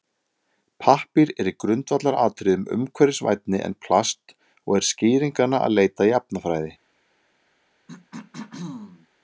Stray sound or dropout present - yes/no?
yes